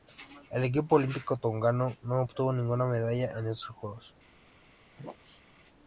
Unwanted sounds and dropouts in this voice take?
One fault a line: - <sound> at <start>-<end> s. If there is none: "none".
- sneeze at 4.9-5.4 s